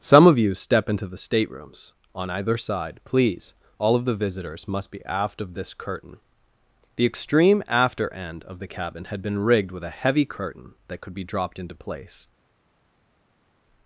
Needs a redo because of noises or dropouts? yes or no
no